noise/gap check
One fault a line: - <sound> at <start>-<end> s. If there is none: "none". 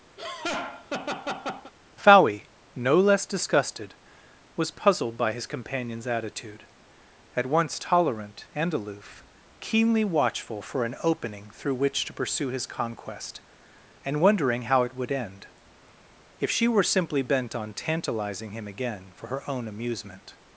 - laugh at 0.2-1.7 s